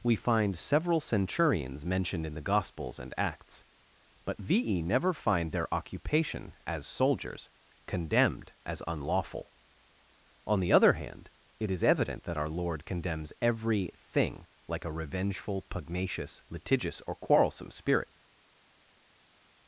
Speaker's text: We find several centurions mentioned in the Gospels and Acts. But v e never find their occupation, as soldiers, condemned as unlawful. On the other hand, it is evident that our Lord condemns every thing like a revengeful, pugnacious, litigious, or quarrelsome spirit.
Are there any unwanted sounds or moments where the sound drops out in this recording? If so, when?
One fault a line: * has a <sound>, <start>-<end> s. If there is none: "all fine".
all fine